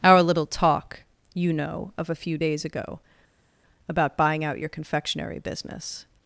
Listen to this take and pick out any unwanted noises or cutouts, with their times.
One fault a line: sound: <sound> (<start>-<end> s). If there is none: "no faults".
no faults